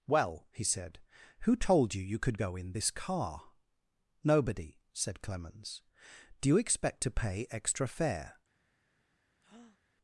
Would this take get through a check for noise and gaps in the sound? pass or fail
fail